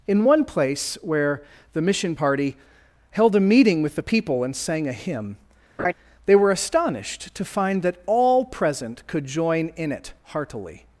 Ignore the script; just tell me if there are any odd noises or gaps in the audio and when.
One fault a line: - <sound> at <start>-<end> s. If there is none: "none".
- laugh at 5.8-5.9 s